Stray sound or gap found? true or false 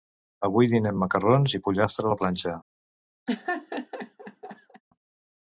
true